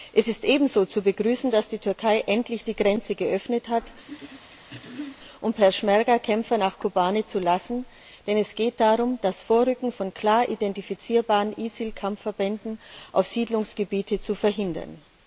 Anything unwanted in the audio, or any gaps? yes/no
yes